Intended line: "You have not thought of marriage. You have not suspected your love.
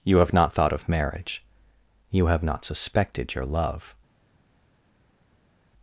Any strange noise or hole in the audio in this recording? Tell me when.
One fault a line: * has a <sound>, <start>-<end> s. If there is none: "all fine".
all fine